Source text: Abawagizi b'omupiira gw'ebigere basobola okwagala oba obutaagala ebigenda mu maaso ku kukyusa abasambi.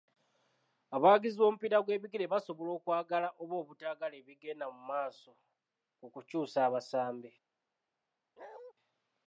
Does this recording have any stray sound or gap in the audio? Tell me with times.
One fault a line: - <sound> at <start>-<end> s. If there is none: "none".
- bark at 8.4-8.7 s